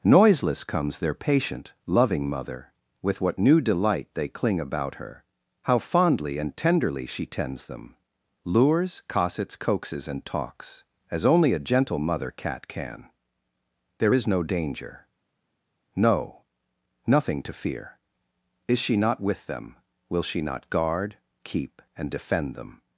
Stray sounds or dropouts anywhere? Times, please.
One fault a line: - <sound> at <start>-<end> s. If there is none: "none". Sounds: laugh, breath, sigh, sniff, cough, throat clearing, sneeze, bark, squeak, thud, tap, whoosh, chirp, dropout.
none